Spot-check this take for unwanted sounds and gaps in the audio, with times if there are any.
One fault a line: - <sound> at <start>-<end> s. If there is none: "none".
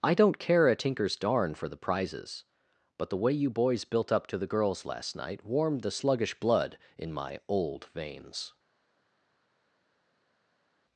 none